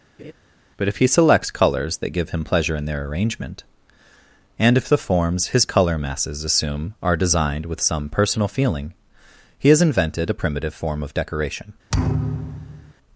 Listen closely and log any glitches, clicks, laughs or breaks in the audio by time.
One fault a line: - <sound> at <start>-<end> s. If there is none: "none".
- laugh at 0.2-0.3 s
- thud at 11.9-12.9 s